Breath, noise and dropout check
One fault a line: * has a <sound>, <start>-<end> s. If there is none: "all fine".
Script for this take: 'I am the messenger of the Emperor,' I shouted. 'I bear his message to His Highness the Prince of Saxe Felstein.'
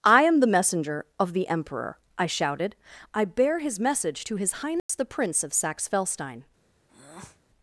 * has a dropout, 4.8-4.9 s
* has a breath, 6.9-7.4 s